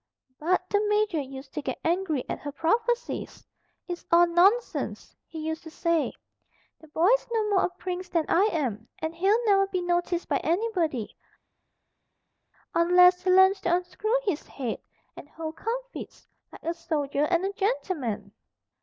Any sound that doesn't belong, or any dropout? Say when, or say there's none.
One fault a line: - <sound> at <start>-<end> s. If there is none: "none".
none